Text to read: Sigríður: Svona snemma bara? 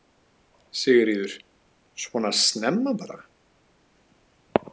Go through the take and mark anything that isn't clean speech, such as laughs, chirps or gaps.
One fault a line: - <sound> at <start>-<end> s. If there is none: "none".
none